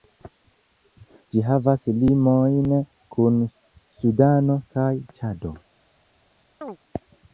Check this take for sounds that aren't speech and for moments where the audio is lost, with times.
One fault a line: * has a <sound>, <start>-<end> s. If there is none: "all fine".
* has a chirp, 6.6-6.8 s